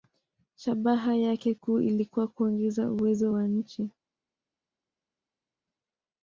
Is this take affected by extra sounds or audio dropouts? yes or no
no